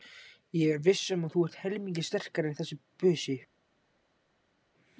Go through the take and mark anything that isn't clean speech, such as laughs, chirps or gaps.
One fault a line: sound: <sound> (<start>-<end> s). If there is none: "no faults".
no faults